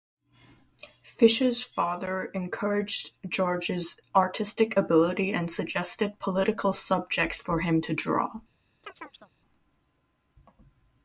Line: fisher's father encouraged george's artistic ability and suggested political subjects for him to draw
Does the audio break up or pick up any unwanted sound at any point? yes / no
yes